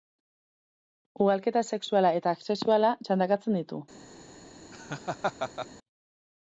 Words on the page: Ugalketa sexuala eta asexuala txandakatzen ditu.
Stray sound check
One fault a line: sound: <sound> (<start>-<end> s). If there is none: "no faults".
sound: laugh (4.7-5.7 s)